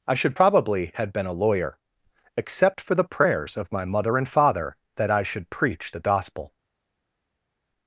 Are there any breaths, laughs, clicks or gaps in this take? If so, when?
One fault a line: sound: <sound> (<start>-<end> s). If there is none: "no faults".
no faults